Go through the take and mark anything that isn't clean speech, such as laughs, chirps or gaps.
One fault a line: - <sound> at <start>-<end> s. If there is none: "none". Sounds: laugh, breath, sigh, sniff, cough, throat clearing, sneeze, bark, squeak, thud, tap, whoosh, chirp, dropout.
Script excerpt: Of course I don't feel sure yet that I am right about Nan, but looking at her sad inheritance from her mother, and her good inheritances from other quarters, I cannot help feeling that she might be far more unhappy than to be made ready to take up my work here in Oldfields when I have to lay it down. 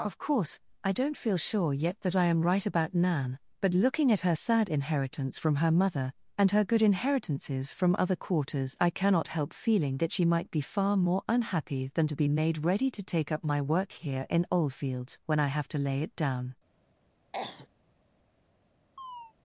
- cough at 17.3-17.7 s
- chirp at 19.0-19.3 s